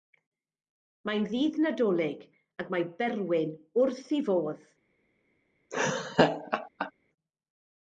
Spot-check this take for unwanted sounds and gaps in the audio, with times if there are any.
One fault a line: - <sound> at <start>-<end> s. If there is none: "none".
- laugh at 5.7-6.9 s